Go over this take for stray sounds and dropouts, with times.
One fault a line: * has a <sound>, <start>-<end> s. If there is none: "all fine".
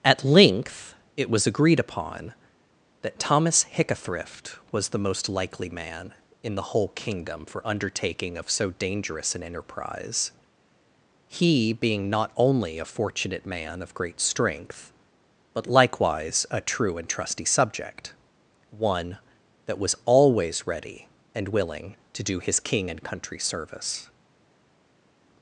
all fine